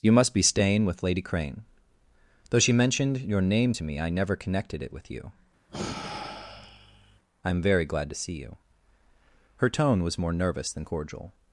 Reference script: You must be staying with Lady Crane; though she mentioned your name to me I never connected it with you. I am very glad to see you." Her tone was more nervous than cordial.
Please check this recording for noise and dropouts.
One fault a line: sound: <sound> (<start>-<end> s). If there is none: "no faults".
sound: sigh (5.7-7.2 s)